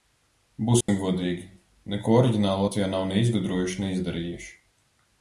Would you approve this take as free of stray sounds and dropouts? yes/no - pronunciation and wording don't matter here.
no